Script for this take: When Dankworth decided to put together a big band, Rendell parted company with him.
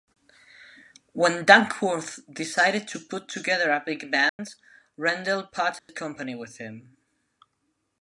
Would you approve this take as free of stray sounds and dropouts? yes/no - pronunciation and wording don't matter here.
no